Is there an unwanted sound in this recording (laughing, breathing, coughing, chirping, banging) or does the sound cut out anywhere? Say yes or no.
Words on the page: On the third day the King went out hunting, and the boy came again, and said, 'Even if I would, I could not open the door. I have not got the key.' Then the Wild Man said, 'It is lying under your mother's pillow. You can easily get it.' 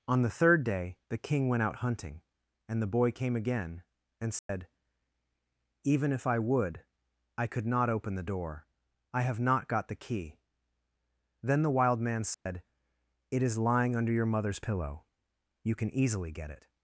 yes